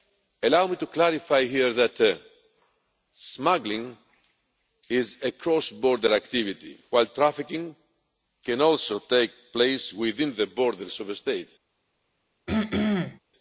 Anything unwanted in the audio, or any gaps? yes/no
yes